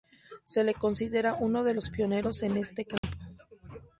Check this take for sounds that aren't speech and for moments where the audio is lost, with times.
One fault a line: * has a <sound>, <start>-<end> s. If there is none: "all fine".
* has a dropout, 3.0-3.0 s